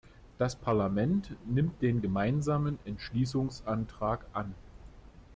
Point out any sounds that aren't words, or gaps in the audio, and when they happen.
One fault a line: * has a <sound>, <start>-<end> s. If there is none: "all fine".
all fine